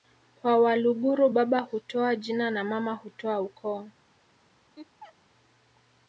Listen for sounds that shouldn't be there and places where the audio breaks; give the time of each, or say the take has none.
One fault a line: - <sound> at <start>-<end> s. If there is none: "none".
- laugh at 4.8-5.2 s